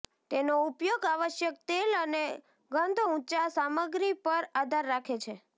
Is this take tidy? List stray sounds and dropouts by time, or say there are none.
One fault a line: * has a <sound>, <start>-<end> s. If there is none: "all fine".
all fine